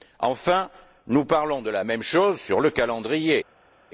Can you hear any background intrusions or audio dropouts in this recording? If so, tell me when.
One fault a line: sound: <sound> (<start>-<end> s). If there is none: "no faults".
no faults